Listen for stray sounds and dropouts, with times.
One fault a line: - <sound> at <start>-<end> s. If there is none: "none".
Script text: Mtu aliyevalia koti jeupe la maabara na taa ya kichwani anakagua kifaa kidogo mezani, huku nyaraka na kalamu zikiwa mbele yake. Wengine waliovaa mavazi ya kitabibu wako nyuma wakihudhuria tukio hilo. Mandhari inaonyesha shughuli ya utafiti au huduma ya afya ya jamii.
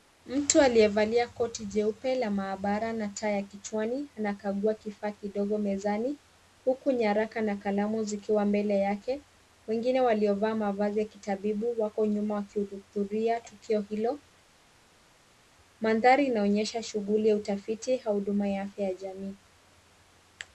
none